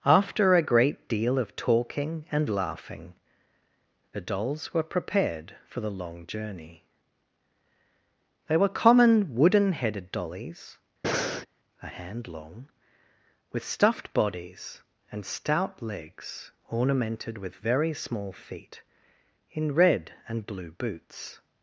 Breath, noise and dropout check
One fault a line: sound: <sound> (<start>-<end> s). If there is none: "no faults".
sound: breath (11.0-11.5 s)